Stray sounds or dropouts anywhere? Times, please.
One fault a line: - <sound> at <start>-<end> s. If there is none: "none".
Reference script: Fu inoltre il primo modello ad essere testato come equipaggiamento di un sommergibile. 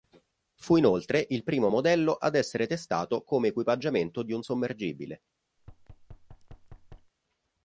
- thud at 5.6-7.1 s